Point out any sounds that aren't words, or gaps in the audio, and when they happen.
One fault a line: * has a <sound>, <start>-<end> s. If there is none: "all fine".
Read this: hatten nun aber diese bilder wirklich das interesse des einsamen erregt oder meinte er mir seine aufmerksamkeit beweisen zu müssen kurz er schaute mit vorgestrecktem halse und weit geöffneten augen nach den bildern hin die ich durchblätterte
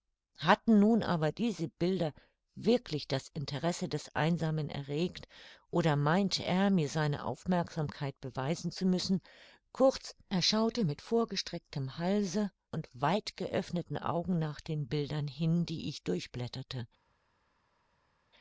all fine